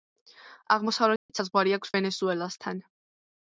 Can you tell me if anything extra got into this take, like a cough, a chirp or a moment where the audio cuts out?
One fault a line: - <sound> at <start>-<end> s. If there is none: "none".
- dropout at 1.2-1.3 s